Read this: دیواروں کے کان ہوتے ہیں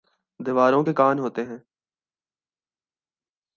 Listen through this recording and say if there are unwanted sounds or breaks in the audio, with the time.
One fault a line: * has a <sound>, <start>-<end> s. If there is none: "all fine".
all fine